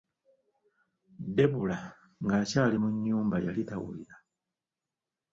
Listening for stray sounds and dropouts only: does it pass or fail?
pass